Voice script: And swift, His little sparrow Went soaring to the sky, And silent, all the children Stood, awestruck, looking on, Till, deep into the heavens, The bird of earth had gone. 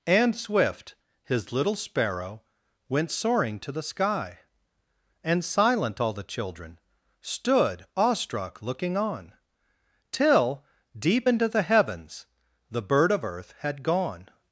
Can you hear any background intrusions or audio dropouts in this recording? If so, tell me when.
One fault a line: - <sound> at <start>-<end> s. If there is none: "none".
none